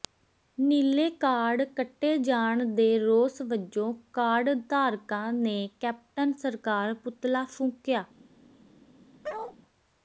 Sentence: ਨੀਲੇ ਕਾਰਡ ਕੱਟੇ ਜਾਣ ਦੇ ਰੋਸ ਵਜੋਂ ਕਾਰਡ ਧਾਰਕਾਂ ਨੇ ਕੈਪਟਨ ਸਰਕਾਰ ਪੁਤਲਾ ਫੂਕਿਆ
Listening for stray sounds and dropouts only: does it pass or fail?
fail